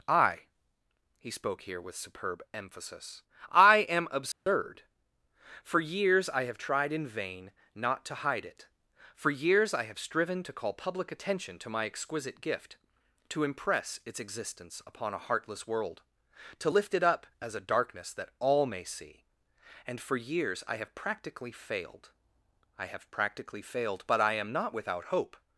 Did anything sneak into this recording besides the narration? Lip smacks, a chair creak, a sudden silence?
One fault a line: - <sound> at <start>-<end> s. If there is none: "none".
- dropout at 4.3-4.5 s